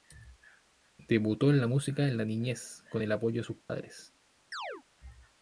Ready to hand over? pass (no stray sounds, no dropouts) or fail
fail